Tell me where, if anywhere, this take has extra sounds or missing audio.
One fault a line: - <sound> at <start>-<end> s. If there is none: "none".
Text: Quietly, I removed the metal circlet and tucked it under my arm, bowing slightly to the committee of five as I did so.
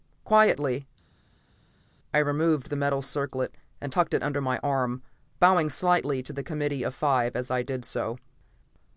none